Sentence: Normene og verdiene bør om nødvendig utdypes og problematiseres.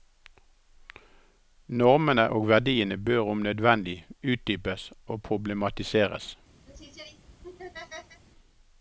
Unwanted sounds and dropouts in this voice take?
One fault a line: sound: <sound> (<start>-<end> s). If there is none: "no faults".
sound: laugh (6.7-8.2 s)